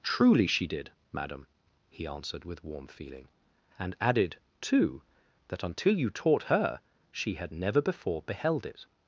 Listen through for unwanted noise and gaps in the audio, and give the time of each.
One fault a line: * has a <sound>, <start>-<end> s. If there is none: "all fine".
all fine